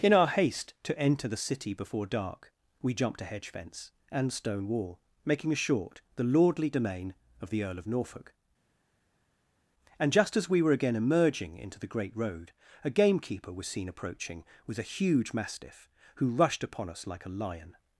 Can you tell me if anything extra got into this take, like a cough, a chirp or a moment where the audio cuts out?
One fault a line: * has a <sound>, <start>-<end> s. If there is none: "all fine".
all fine